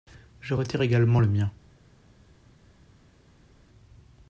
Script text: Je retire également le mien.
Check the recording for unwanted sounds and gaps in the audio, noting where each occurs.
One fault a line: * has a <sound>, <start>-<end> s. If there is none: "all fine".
all fine